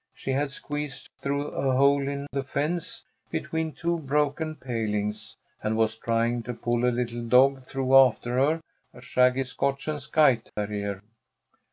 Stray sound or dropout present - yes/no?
yes